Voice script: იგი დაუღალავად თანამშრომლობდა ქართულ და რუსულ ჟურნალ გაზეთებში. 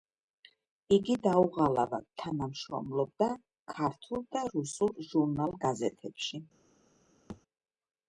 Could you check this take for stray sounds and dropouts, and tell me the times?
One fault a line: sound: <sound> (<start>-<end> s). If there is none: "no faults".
sound: thud (7.3-7.4 s)